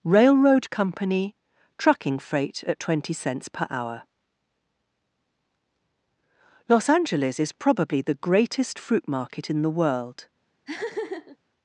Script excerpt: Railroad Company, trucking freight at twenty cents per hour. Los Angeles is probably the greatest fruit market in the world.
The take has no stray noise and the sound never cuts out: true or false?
false